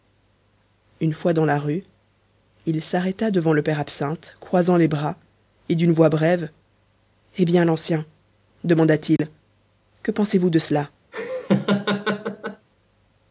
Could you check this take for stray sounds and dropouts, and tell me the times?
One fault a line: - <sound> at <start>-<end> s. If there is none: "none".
- dropout at 9.2-9.2 s
- laugh at 11.1-12.7 s